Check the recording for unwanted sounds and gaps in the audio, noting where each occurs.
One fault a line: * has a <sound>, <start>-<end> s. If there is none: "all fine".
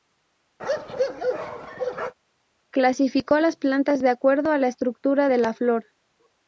* has a bark, 0.6-2.1 s